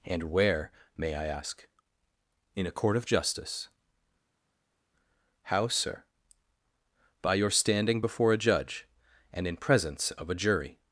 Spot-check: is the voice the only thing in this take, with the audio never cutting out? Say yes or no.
yes